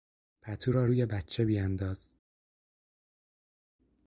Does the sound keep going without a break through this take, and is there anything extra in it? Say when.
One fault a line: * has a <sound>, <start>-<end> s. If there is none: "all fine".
all fine